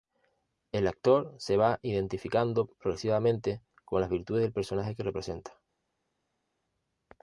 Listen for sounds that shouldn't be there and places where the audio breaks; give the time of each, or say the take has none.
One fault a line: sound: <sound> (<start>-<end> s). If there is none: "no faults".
no faults